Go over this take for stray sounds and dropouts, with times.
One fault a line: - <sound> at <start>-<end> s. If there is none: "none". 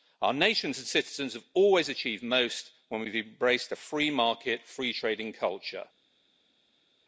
none